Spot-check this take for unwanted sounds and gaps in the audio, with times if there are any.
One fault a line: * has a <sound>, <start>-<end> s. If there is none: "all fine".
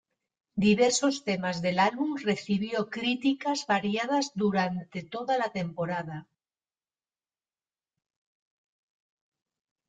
all fine